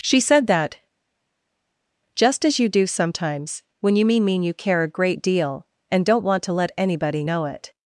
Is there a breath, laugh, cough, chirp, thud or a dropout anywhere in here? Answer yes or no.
no